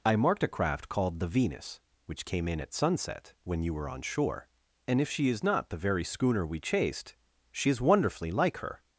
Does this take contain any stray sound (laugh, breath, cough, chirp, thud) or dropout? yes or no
no